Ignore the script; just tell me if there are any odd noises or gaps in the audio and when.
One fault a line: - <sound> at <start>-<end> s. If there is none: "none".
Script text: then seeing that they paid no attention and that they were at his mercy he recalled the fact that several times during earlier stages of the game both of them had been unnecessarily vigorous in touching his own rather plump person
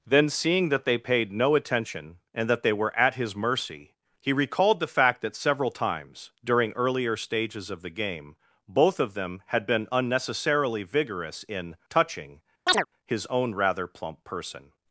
- chirp at 12.7-12.9 s